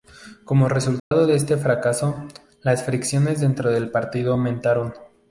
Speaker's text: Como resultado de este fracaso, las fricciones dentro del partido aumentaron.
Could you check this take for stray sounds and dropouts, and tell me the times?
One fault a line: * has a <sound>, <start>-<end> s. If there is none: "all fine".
* has a dropout, 1.0-1.1 s